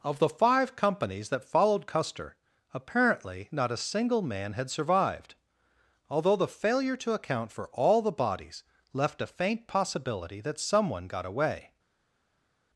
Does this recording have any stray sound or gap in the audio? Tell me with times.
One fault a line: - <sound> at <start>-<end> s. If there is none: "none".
none